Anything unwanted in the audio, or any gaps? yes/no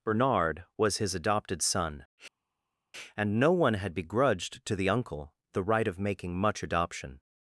no